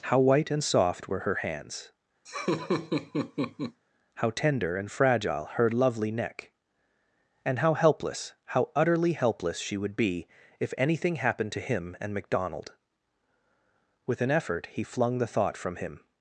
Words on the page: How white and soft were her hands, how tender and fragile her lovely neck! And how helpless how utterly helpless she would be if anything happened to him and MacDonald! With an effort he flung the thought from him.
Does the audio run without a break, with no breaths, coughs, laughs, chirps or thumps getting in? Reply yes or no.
no